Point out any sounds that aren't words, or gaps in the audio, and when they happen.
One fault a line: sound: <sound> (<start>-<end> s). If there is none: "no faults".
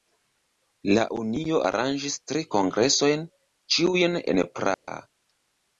sound: dropout (4.7-4.9 s)